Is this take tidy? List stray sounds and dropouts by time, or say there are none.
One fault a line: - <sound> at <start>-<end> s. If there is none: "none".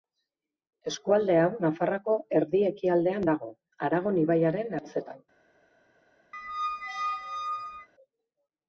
- squeak at 6.3-7.9 s